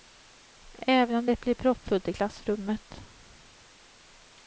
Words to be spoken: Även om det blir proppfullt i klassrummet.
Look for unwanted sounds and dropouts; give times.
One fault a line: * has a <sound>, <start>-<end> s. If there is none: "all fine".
all fine